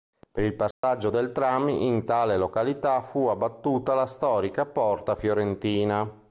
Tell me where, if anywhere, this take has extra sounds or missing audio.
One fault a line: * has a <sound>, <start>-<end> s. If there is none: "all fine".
* has a dropout, 0.7-0.8 s